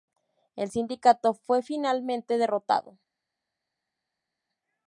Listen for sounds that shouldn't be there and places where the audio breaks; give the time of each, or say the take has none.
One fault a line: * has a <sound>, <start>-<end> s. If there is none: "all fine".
all fine